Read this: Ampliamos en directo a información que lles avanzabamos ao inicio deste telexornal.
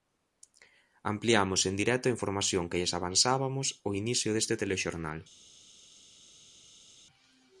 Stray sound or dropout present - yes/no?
no